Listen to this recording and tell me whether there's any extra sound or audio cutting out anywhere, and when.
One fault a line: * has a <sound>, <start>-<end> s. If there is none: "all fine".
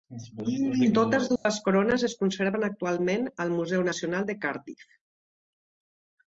* has a dropout, 1.4-1.5 s